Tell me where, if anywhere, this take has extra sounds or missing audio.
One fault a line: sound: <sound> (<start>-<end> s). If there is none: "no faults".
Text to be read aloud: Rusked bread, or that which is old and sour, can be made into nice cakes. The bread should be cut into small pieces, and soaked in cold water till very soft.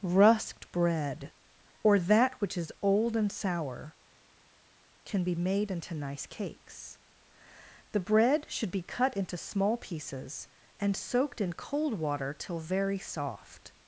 no faults